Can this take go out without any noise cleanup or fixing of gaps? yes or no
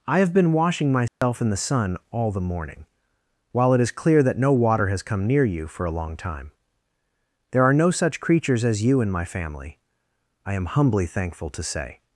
no